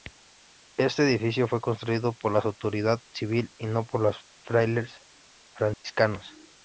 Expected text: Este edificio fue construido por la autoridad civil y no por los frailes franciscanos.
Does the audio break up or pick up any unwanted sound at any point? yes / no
yes